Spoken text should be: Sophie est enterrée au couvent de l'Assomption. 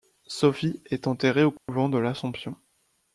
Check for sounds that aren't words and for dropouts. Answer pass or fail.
fail